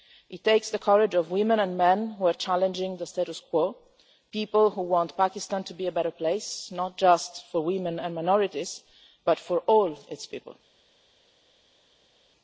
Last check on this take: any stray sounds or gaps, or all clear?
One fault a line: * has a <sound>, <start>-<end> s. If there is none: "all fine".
all fine